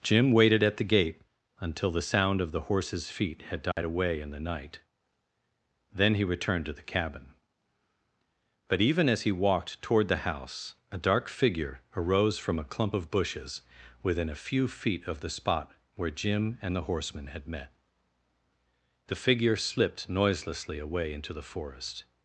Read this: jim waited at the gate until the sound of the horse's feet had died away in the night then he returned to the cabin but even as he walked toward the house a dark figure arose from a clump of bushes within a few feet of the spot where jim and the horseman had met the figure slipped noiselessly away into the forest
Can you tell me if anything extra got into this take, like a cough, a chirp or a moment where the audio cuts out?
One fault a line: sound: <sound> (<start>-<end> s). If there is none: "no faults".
sound: dropout (3.7-3.8 s)